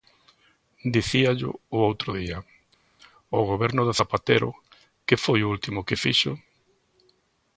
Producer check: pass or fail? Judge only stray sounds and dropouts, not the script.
pass